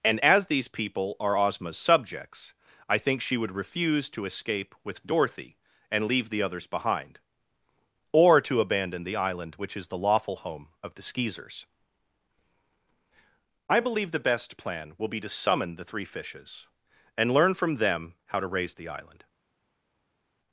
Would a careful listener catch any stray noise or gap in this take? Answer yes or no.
no